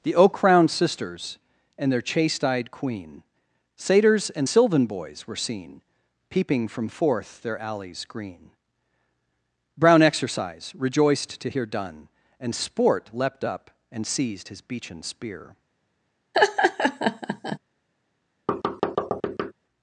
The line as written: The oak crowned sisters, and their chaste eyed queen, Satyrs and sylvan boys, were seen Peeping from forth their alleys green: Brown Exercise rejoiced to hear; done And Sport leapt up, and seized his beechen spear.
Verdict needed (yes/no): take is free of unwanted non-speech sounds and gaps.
no